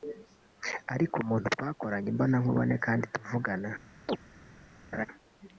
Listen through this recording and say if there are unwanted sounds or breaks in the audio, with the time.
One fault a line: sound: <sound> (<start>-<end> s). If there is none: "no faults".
sound: chirp (4.1-4.2 s)
sound: laugh (4.9-5.1 s)